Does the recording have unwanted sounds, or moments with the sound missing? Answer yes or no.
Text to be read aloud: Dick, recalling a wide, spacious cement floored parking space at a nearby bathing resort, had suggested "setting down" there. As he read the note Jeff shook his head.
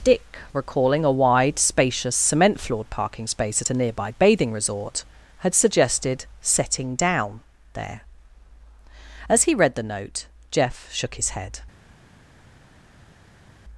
no